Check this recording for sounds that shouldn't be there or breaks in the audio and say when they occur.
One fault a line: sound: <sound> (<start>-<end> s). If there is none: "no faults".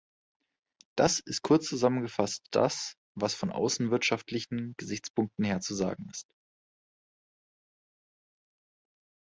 no faults